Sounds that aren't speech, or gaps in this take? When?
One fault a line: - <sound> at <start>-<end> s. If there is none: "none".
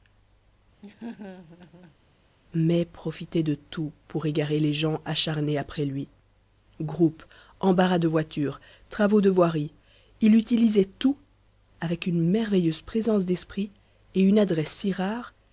- laugh at 0.8-2.0 s